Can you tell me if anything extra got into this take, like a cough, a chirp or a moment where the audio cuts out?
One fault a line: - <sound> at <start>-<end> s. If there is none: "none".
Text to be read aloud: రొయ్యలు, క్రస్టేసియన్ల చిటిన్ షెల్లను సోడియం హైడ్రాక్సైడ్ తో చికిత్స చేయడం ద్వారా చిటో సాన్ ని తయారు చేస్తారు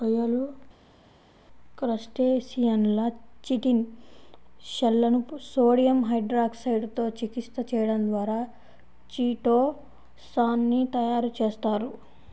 none